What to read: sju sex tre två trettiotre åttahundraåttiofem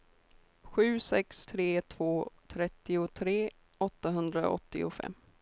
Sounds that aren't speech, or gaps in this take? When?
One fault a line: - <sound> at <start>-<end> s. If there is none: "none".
none